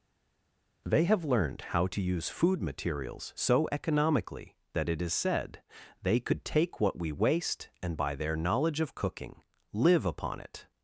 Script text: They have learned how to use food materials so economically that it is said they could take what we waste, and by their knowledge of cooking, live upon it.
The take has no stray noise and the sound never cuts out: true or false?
true